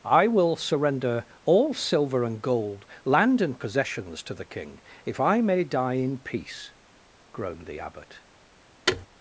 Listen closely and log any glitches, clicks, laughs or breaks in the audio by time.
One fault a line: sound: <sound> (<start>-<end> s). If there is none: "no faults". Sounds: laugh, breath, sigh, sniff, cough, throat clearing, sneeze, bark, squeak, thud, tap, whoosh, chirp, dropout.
sound: thud (8.9-9.1 s)